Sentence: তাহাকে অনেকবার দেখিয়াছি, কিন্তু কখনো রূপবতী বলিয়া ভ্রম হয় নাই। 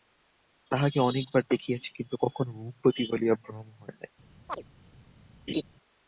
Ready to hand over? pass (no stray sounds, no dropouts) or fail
fail